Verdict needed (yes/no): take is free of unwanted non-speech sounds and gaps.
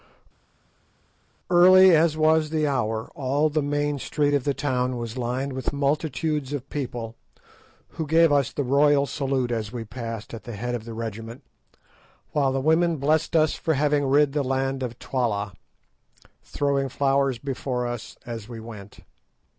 yes